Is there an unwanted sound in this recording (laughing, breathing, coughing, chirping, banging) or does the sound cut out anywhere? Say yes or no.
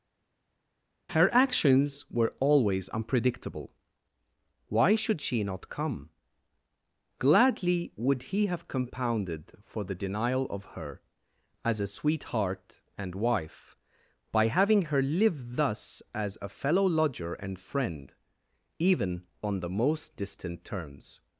no